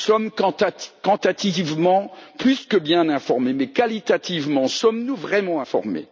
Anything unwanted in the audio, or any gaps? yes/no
no